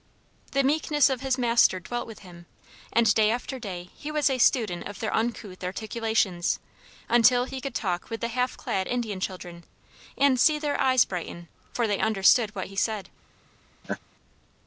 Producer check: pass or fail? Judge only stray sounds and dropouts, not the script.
fail